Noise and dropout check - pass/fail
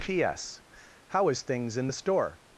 pass